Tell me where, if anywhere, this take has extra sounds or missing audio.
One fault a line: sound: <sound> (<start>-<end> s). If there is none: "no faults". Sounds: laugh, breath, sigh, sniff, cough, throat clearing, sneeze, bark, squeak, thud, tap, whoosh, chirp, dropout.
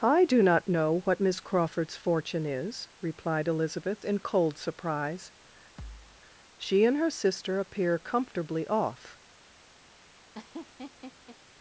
sound: thud (5.8-6.2 s)
sound: laugh (10.3-11.4 s)